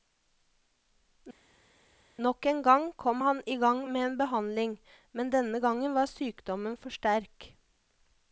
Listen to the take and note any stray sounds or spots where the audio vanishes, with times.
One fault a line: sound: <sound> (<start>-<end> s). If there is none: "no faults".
no faults